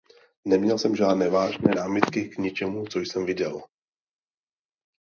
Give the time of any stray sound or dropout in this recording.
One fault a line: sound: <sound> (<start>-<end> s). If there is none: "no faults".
no faults